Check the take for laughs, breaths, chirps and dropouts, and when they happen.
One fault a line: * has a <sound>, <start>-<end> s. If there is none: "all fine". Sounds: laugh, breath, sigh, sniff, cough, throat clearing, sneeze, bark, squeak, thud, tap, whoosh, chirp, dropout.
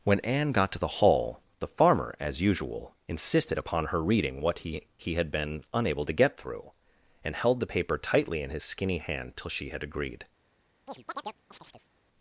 * has a chirp, 10.9-11.9 s